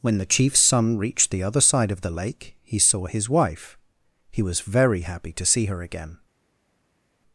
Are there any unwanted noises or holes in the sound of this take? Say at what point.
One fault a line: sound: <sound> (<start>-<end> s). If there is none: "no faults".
no faults